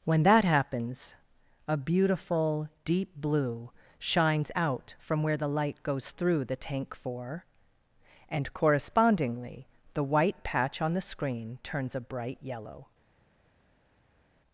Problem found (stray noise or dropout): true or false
false